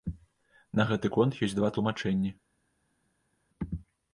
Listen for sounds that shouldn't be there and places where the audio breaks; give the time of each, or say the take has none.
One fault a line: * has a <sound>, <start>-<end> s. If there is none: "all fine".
all fine